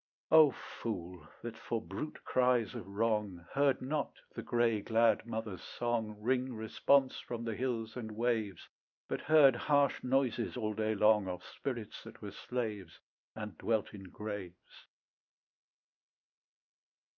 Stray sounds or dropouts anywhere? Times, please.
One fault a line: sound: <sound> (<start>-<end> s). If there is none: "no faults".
no faults